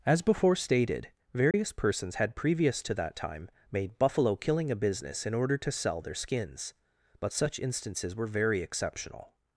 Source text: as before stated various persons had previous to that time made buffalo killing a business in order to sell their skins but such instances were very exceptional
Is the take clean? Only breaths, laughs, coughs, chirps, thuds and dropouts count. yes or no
no